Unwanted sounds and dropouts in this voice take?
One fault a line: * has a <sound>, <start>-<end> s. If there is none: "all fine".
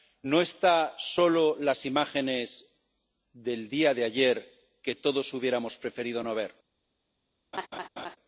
* has a laugh, 7.5-8.2 s